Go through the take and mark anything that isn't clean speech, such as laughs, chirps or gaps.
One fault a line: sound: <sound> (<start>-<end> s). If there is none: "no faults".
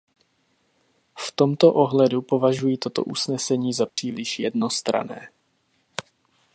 sound: dropout (3.9-4.0 s)